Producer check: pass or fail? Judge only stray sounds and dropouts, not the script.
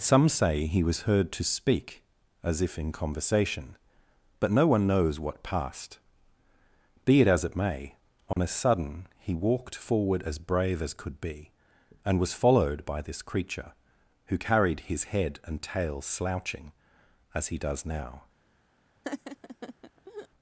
fail